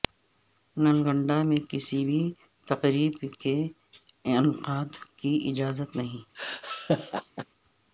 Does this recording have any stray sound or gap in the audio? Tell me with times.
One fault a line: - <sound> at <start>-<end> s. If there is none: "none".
- laugh at 6.3-7.5 s